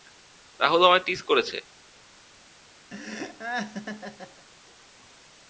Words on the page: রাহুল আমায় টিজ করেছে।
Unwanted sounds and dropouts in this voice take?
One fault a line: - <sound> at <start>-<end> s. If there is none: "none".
- laugh at 2.9-4.5 s